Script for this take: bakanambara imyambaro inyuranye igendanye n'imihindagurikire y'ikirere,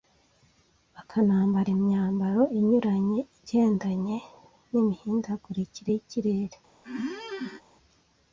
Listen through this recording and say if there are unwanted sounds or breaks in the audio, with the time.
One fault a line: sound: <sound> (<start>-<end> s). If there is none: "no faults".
sound: squeak (6.8-7.6 s)